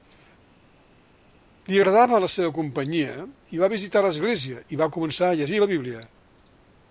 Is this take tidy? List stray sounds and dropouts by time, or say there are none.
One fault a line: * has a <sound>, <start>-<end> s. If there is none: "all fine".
all fine